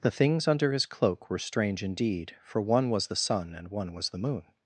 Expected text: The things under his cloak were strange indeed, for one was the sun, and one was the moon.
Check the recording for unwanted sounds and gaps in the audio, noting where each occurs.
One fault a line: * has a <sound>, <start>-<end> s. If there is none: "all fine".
all fine